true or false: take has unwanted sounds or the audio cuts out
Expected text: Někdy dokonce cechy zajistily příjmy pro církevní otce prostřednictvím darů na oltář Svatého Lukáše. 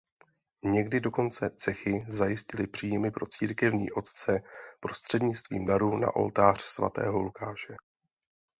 false